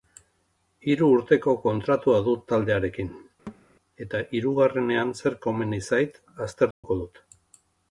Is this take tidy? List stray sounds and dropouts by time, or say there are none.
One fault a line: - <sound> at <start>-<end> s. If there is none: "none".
- thud at 3.5-3.7 s
- dropout at 6.7-6.8 s